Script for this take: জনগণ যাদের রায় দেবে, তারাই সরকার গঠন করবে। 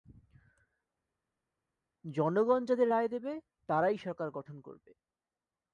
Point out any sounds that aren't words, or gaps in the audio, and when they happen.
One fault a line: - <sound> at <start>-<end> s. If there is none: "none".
none